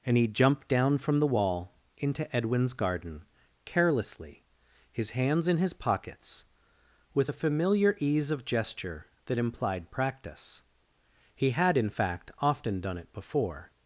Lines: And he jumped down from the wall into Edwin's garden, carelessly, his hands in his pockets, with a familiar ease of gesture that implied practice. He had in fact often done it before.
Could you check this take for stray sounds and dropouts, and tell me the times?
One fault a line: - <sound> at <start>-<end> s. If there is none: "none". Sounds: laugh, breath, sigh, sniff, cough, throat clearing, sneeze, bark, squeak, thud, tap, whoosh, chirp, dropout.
none